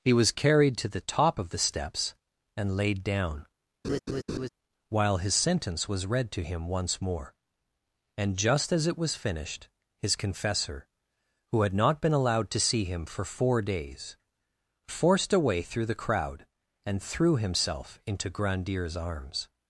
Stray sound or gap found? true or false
true